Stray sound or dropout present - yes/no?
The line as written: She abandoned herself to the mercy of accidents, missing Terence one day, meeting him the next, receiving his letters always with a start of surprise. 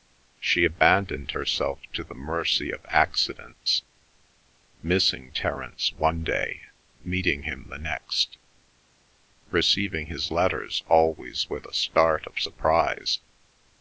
no